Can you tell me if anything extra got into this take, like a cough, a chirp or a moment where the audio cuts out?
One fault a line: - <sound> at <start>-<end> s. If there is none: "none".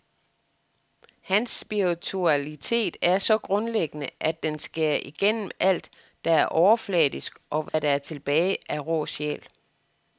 - dropout at 7.7-7.7 s